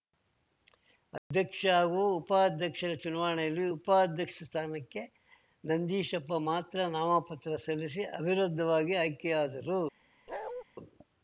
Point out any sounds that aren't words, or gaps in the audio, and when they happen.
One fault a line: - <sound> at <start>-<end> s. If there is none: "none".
- dropout at 1.2-1.3 s
- bark at 10.3-10.6 s